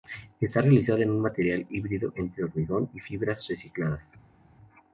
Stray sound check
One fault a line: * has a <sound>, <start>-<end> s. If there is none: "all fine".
all fine